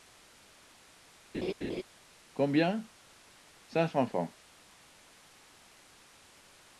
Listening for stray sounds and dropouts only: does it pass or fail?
fail